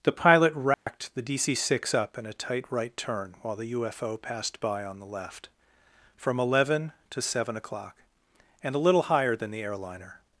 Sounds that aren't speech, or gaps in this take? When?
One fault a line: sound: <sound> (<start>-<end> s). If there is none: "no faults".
sound: dropout (0.7-0.9 s)